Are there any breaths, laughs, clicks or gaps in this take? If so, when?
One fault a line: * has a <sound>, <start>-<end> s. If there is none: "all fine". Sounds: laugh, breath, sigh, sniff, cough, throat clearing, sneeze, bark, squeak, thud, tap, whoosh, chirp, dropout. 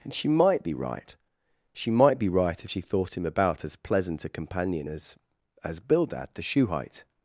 all fine